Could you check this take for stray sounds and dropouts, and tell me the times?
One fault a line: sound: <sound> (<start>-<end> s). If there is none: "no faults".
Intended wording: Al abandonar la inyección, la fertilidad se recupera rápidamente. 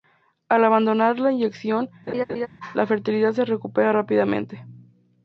sound: laugh (2.1-2.5 s)